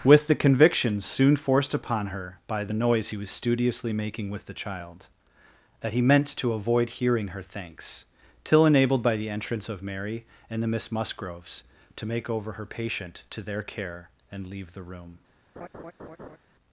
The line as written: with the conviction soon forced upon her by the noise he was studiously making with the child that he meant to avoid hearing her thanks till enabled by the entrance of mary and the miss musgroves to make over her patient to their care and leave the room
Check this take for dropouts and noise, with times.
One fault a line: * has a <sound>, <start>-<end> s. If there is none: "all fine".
* has a laugh, 15.6-16.4 s